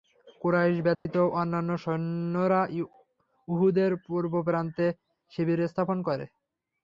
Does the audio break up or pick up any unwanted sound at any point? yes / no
yes